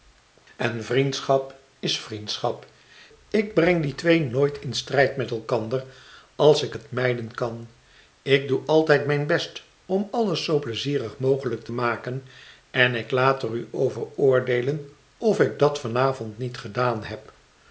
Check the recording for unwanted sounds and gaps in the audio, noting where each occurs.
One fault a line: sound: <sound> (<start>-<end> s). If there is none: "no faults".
no faults